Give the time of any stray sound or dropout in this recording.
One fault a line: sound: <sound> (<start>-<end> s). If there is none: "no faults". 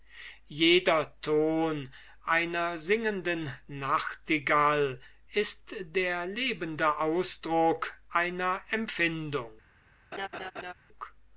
sound: laugh (10.1-10.7 s)